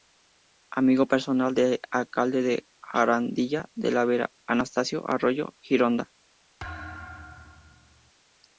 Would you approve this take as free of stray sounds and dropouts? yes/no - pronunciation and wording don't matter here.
no